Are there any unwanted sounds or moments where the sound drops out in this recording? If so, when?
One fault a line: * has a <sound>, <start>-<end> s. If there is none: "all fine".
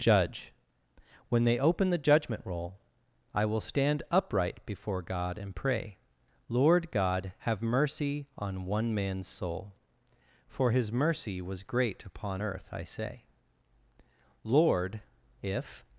all fine